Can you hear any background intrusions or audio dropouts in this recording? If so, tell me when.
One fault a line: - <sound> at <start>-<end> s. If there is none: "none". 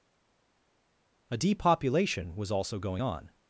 none